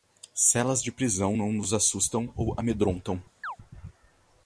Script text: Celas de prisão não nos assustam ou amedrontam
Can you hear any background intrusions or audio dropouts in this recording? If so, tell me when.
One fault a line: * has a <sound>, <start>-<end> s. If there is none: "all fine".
* has a chirp, 3.4-3.6 s